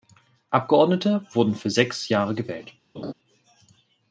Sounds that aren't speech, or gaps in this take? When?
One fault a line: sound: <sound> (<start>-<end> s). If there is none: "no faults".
sound: laugh (2.9-3.1 s)